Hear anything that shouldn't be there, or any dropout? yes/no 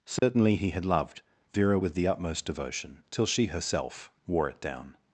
yes